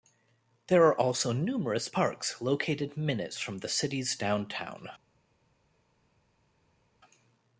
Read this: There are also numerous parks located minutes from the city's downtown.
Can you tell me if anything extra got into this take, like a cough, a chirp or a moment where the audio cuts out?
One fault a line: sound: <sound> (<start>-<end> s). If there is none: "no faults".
no faults